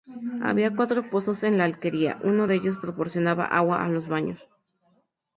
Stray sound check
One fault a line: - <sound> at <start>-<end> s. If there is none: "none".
none